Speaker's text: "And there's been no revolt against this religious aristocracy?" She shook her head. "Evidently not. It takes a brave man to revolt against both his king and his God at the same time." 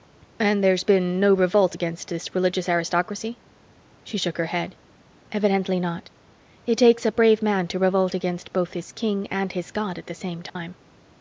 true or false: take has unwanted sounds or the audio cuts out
true